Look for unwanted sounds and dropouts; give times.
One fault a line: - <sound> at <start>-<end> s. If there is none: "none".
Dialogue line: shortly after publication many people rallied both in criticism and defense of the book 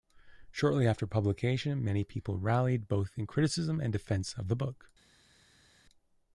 none